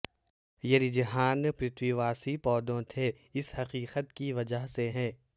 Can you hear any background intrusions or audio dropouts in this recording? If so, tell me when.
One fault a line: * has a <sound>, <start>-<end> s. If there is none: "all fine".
all fine